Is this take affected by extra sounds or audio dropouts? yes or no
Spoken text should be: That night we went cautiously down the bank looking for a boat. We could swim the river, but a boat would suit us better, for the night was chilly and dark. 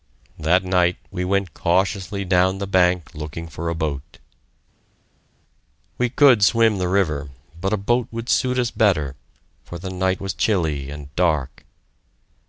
no